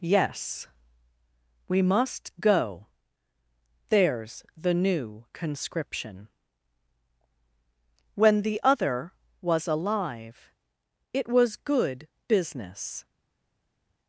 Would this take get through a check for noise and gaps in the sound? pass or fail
pass